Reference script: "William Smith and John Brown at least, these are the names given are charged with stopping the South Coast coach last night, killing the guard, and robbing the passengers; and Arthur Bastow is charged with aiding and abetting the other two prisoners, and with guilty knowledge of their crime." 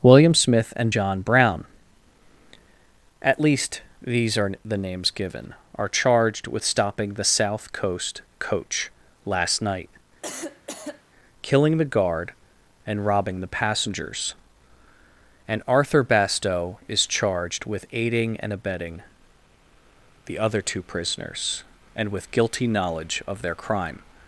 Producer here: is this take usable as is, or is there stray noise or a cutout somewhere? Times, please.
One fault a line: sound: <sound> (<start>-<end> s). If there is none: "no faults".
sound: cough (10.2-11.0 s)